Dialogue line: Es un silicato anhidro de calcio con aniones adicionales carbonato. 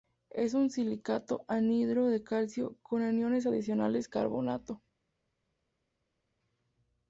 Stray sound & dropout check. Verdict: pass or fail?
pass